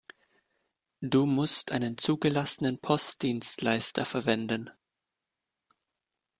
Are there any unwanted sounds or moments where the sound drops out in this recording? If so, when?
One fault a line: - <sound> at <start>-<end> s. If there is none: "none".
none